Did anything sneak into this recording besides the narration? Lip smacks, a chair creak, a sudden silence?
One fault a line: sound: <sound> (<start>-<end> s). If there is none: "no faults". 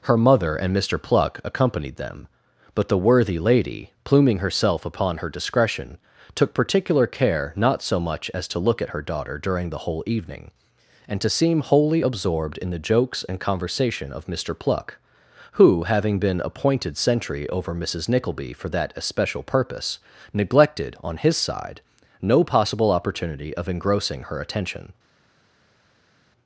no faults